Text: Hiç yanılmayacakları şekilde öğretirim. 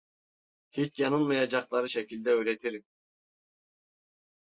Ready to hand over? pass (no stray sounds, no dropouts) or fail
pass